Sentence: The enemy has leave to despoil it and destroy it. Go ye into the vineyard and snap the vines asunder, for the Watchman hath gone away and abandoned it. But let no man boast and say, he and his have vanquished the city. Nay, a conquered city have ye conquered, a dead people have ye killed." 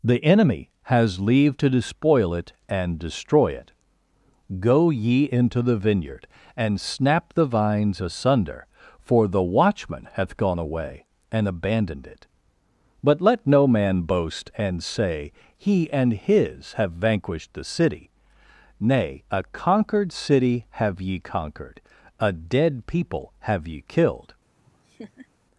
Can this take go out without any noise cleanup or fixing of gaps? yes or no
no